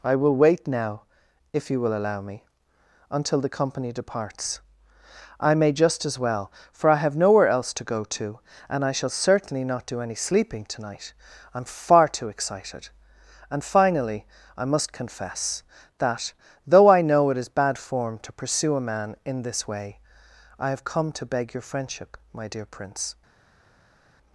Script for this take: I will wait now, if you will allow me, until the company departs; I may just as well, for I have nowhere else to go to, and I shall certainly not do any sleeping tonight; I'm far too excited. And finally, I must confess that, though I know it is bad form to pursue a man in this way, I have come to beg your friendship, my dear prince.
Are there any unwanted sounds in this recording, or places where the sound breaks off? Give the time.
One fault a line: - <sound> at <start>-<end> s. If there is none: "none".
none